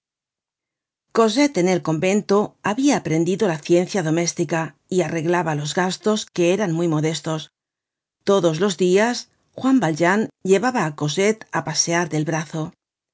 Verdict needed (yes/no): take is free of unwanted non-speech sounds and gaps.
yes